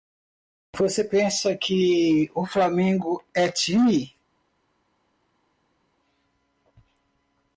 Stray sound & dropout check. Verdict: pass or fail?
pass